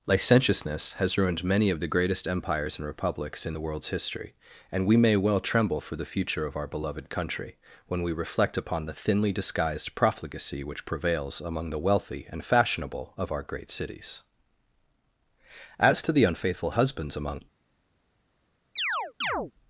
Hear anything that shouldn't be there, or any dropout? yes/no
yes